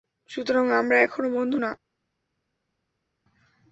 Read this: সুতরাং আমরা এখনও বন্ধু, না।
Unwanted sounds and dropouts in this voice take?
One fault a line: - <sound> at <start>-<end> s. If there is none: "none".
none